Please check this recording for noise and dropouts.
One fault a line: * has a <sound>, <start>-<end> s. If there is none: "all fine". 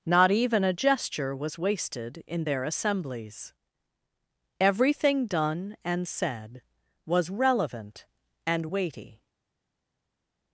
all fine